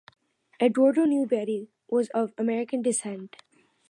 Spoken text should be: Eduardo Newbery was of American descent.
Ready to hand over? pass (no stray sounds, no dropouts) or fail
pass